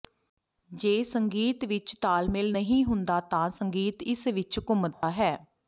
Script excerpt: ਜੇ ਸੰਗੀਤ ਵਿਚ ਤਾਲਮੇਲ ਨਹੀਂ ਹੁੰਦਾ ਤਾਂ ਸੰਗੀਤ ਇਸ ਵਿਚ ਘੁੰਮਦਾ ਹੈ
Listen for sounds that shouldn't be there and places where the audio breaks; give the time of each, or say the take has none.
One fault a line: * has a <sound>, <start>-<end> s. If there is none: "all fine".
* has a dropout, 4.9-5.0 s